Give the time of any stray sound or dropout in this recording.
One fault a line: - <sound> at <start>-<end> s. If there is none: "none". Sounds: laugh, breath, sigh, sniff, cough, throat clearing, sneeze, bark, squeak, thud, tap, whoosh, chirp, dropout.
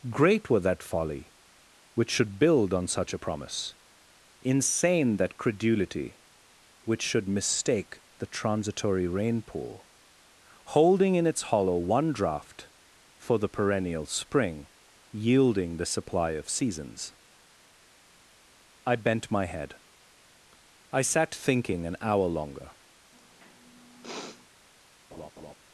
- sniff at 23.1-24.5 s
- laugh at 25.1-25.5 s